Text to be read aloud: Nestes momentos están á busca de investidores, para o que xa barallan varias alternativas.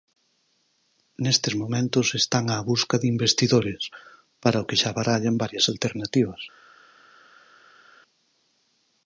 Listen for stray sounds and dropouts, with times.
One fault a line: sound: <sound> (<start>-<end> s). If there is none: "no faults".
no faults